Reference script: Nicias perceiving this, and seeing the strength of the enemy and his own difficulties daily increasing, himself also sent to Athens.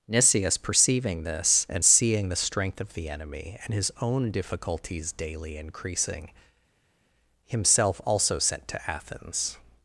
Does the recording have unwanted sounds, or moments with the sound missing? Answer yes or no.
no